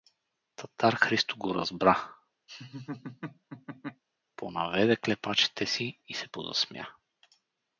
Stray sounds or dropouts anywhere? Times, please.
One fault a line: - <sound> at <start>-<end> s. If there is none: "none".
- laugh at 2.5-4.0 s